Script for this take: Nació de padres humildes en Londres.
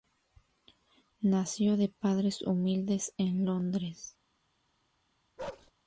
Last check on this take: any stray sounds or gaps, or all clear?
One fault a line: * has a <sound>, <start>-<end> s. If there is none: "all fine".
* has a bark, 5.4-5.7 s